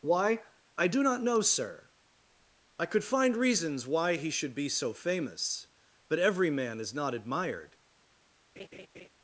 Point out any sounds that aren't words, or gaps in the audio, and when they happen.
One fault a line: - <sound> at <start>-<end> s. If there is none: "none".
- laugh at 8.6-9.1 s